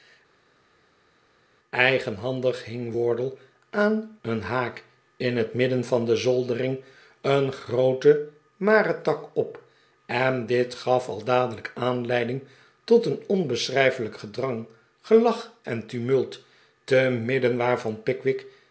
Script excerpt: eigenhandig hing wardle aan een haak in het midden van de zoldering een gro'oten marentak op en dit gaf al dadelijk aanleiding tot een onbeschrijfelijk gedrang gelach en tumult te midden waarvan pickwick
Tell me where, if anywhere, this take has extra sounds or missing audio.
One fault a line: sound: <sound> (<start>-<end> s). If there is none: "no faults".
no faults